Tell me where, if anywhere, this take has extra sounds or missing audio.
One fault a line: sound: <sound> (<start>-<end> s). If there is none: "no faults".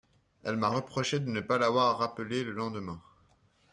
no faults